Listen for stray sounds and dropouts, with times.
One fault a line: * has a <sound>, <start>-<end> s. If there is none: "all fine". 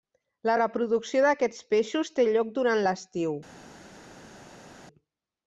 all fine